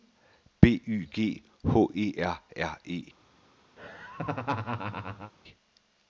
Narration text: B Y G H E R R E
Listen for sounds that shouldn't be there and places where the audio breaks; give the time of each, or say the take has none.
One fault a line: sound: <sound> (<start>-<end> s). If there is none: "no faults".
sound: laugh (3.8-5.3 s)